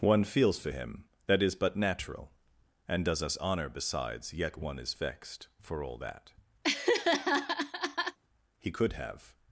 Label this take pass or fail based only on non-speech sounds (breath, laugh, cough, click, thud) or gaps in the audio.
fail